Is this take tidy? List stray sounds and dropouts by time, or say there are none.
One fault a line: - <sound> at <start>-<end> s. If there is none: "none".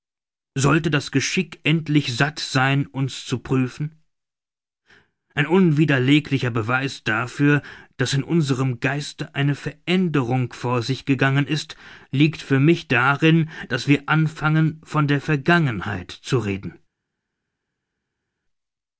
none